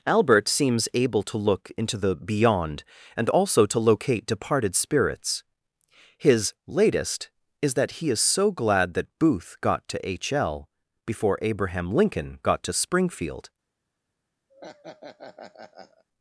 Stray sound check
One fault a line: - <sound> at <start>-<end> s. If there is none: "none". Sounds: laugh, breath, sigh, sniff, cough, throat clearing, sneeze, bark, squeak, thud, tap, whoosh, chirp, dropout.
- laugh at 14.5-16.0 s